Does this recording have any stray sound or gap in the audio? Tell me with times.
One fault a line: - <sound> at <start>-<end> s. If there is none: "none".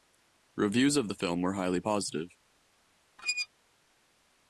- squeak at 3.2-3.5 s